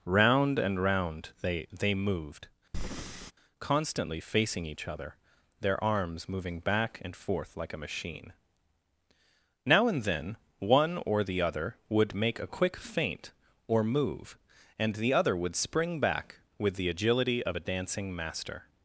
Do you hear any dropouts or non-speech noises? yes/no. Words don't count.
yes